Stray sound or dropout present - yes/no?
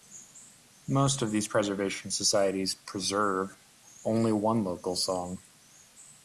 no